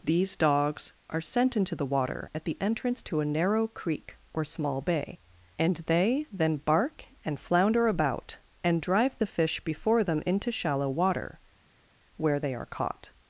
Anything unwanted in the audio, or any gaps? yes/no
no